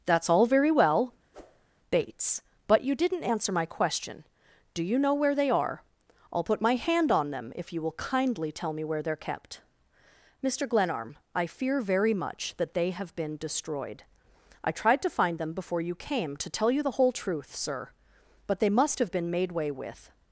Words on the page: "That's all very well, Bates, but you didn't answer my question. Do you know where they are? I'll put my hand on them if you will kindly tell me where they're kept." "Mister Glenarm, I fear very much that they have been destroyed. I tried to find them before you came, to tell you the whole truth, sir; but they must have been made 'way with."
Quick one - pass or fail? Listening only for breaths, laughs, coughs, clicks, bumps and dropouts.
fail